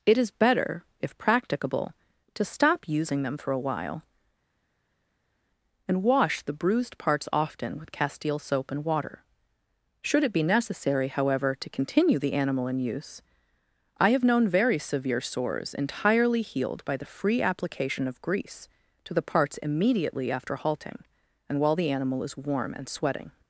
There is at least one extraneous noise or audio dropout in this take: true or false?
false